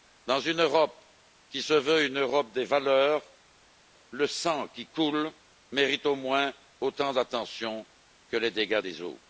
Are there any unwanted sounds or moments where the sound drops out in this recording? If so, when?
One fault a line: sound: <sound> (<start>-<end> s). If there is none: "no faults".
no faults